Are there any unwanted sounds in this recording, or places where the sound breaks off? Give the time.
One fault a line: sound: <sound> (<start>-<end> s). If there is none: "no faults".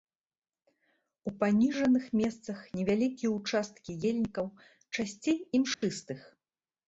sound: dropout (5.7-5.8 s)